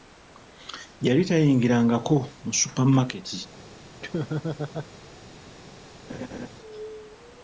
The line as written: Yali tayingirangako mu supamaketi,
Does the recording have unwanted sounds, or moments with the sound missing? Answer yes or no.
yes